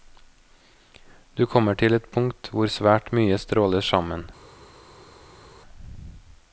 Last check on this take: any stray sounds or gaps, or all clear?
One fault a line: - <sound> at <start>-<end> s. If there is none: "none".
none